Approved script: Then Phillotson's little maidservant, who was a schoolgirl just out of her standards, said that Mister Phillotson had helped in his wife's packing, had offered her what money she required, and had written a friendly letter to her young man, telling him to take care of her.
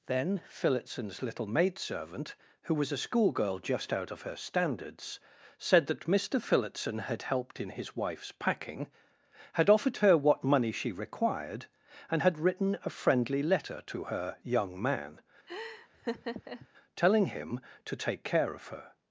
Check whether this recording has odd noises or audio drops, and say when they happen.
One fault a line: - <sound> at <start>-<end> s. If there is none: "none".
- laugh at 15.5-16.7 s